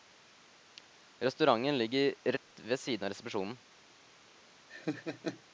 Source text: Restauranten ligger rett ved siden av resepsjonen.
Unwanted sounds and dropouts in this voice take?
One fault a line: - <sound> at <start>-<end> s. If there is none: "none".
- dropout at 2.4-2.5 s
- laugh at 4.7-5.4 s